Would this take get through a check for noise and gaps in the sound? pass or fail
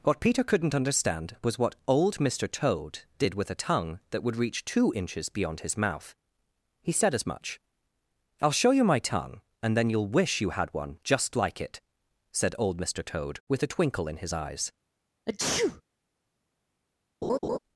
fail